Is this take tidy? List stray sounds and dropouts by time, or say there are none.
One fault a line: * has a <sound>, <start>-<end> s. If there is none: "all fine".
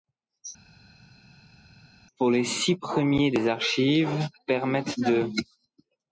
all fine